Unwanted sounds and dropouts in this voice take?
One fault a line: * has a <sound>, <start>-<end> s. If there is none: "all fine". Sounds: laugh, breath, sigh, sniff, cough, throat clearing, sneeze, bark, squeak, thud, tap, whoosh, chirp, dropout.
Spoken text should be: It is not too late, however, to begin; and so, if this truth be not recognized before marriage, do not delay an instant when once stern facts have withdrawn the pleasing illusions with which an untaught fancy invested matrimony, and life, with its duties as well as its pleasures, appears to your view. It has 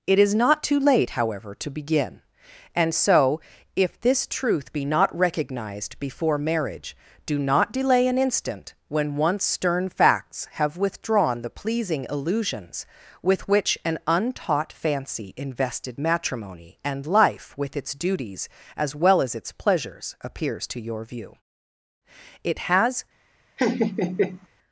* has a laugh, 23.6-24.5 s